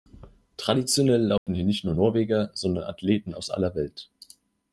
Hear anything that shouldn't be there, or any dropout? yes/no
yes